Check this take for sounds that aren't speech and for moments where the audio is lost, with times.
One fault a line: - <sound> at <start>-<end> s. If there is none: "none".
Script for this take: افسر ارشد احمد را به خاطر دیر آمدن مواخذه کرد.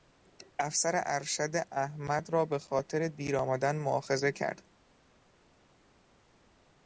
none